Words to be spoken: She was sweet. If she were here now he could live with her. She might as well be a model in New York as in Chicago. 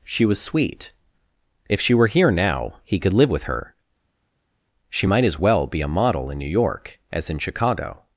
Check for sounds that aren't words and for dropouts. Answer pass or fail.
pass